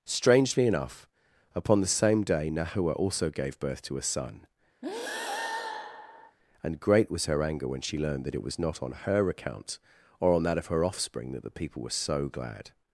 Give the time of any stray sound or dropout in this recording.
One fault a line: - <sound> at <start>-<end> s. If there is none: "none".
- breath at 4.8-6.4 s